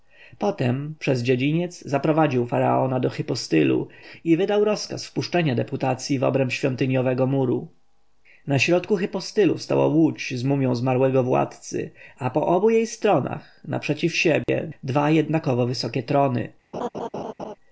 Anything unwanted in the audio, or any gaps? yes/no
yes